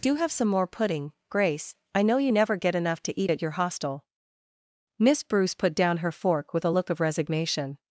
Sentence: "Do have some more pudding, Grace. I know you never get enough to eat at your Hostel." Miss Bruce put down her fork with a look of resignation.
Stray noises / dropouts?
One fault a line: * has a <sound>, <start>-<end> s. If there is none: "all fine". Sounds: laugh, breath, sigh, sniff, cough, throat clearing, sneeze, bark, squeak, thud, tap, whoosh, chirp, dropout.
all fine